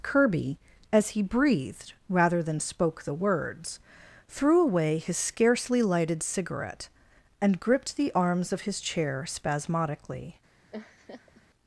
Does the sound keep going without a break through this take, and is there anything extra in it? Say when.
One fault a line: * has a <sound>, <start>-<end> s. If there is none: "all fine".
* has a laugh, 10.7-11.4 s